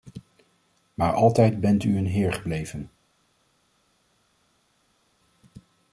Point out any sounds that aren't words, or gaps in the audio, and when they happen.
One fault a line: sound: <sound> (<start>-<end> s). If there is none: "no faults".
no faults